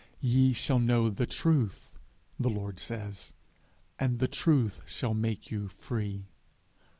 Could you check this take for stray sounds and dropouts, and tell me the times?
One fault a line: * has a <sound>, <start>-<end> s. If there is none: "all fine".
all fine